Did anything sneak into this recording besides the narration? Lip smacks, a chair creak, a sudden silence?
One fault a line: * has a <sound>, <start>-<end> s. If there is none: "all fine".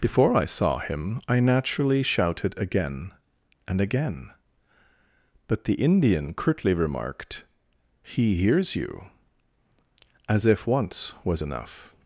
all fine